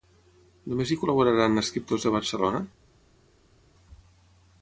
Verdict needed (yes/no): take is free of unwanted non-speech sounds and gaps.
yes